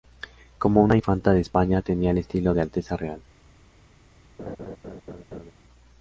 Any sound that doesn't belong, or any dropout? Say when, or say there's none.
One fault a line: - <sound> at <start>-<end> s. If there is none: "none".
- laugh at 4.4-5.5 s